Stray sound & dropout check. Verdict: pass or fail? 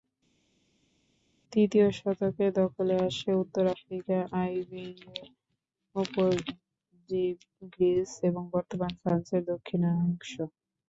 pass